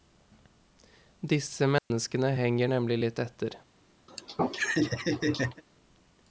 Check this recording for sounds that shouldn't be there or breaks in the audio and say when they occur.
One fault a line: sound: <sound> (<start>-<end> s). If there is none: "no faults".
sound: dropout (1.8-1.9 s)
sound: laugh (4.1-5.6 s)